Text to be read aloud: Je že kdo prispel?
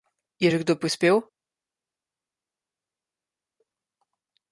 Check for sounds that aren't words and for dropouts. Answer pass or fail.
pass